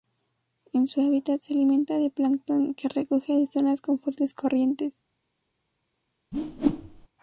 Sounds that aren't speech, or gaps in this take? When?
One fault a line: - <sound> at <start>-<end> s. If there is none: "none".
- whoosh at 6.3-7.1 s